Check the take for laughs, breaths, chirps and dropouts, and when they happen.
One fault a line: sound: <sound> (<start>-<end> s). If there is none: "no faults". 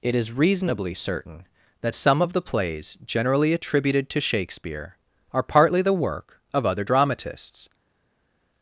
no faults